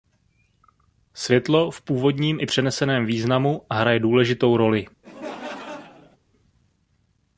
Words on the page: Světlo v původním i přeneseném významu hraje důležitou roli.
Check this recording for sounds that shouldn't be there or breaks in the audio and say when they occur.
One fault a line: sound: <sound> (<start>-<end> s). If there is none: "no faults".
sound: laugh (5.0-6.2 s)